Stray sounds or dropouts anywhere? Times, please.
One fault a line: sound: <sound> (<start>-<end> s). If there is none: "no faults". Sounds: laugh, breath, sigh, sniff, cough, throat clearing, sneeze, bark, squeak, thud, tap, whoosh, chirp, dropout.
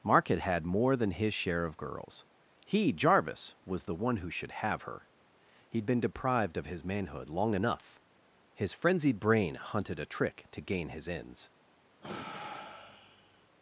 sound: sigh (12.0-13.5 s)